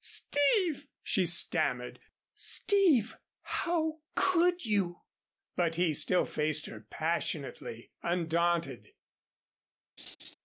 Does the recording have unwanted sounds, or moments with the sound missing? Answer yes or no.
yes